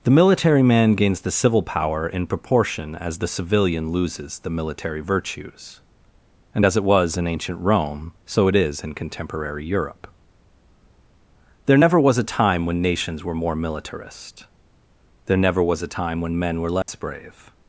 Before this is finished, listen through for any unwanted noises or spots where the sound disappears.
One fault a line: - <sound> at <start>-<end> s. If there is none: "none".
- dropout at 16.8-16.9 s